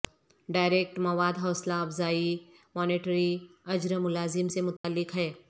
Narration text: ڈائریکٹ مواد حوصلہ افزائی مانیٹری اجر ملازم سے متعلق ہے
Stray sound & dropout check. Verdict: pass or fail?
fail